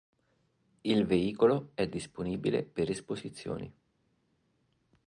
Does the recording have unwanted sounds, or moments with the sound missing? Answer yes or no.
no